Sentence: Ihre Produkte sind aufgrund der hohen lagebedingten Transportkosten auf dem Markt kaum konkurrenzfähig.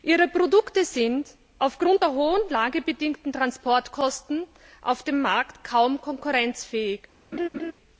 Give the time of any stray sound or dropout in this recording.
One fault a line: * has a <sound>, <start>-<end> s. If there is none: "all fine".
* has a laugh, 7.3-7.7 s